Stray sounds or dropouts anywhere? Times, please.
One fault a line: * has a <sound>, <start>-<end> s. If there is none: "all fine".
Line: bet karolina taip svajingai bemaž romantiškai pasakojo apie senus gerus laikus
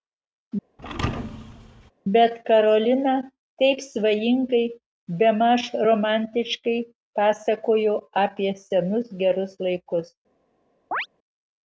* has a thud, 0.8-1.9 s
* has a chirp, 10.9-11.1 s